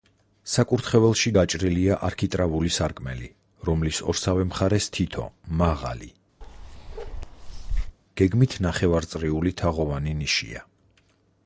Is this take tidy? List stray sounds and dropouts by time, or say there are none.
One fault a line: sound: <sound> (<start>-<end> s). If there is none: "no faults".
sound: bark (6.4-8.0 s)